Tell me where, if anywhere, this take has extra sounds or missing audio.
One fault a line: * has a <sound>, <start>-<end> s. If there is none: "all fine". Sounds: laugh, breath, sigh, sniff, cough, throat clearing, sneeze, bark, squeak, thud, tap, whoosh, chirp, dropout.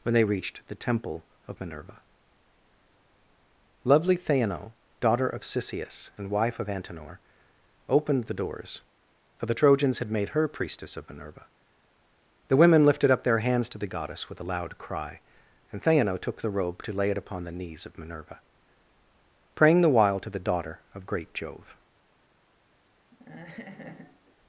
* has a laugh, 23.1-24.4 s